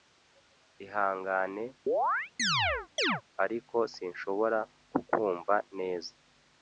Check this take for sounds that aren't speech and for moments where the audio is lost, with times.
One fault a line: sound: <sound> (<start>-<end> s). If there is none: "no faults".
sound: chirp (1.9-3.2 s)